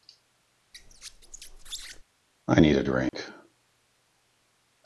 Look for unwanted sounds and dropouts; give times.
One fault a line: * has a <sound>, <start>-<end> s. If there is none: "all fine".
* has a squeak, 0.7-2.0 s
* has a dropout, 3.1-3.1 s